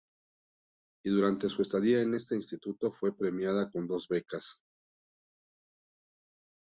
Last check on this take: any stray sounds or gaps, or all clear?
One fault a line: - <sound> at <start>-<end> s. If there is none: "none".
none